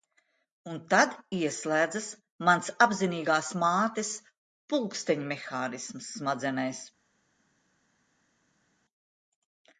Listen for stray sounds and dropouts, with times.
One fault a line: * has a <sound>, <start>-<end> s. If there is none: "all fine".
all fine